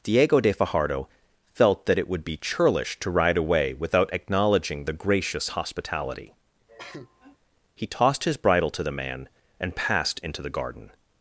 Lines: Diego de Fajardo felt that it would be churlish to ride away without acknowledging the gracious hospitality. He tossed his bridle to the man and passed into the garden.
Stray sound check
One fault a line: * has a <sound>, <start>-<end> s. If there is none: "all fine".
* has a cough, 6.7-7.4 s